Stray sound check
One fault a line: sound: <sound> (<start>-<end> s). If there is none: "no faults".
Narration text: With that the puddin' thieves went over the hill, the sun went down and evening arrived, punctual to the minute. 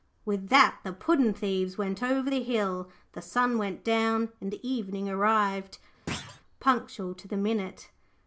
sound: thud (6.1-6.4 s)